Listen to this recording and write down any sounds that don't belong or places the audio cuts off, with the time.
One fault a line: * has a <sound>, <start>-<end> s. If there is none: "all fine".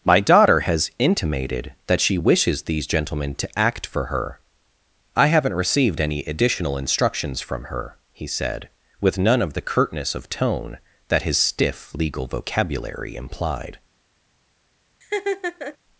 * has a laugh, 15.0-15.8 s